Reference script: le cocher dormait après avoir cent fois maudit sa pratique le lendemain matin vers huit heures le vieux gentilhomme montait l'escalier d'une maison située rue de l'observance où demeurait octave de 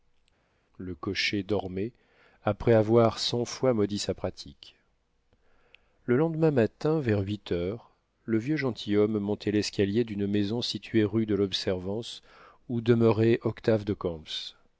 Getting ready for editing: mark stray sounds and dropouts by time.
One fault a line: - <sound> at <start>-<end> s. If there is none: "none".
none